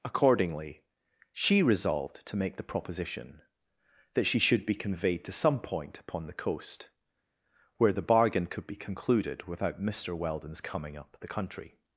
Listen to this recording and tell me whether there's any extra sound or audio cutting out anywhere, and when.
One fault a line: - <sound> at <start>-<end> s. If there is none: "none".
none